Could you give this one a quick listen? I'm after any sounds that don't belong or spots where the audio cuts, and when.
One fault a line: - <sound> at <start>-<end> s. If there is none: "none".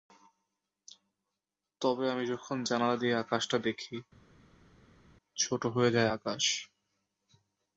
none